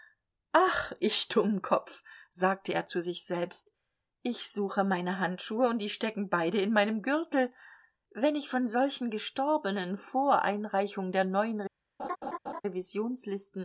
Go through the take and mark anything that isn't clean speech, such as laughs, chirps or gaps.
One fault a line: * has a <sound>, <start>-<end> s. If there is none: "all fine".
* has a laugh, 12.0-12.6 s